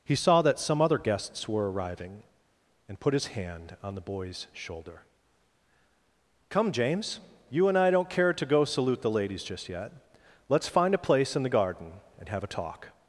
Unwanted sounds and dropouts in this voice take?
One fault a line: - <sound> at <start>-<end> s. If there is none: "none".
none